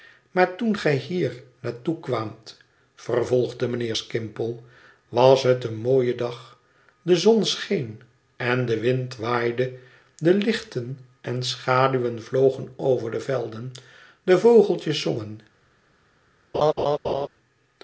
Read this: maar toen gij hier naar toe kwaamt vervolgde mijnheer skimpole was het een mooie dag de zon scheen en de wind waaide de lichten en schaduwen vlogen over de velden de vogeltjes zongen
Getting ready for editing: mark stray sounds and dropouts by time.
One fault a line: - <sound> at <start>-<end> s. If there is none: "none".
- laugh at 16.5-17.3 s